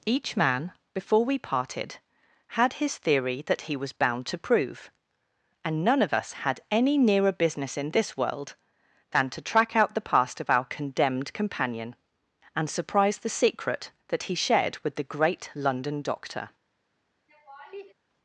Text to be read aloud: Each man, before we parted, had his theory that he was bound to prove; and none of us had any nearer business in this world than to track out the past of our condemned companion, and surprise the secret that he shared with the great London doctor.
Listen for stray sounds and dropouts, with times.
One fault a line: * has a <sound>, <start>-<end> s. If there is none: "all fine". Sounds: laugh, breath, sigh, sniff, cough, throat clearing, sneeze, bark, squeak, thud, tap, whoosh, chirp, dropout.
* has a laugh, 17.3-17.9 s